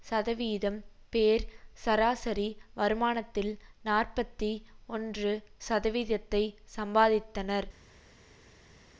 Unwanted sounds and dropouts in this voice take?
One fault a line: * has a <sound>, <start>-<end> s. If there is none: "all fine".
all fine